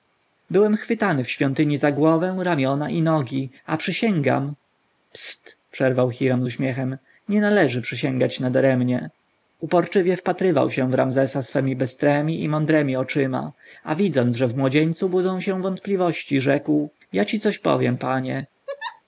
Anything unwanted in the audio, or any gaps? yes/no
yes